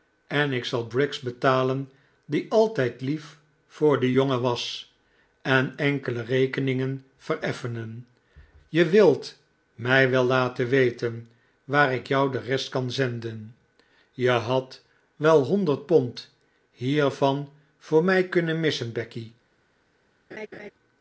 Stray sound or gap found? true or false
true